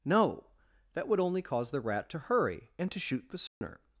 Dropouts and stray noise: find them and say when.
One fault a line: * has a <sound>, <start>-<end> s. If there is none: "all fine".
* has a dropout, 3.5-3.6 s